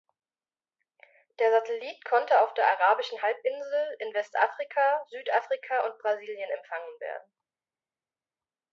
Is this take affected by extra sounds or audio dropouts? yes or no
no